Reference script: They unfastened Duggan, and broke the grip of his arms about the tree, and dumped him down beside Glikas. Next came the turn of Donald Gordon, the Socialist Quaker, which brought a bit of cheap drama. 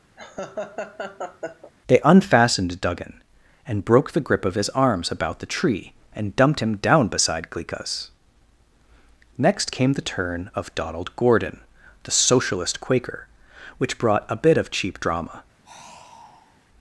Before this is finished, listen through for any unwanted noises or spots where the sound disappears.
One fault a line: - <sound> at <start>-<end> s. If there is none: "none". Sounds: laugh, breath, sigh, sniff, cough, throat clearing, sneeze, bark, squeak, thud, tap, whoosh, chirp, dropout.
- laugh at 0.2-1.7 s
- sigh at 15.6-16.7 s